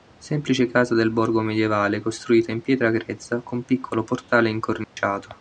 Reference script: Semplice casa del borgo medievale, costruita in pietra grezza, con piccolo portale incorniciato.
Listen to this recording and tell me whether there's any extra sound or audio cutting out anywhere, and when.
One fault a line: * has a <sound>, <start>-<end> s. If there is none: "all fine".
* has a dropout, 4.8-5.0 s